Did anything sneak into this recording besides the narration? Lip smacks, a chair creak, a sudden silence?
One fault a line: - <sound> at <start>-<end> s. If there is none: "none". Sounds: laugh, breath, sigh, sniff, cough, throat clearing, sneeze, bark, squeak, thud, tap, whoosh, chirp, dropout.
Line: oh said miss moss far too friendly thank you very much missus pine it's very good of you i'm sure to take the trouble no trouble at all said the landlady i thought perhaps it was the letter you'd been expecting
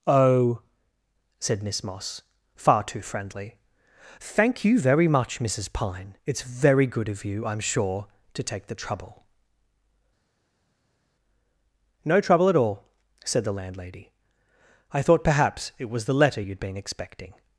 none